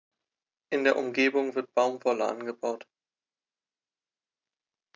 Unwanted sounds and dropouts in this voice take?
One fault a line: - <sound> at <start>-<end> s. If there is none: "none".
none